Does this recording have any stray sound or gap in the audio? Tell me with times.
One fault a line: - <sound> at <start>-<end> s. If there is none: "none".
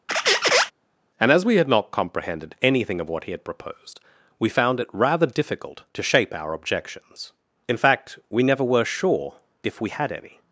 - squeak at 0.1-0.7 s